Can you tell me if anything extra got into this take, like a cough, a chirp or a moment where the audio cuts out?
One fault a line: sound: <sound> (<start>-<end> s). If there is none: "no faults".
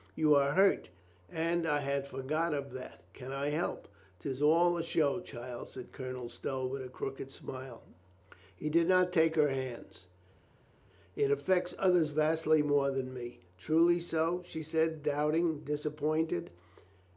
no faults